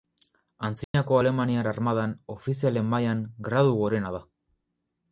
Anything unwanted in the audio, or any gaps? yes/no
yes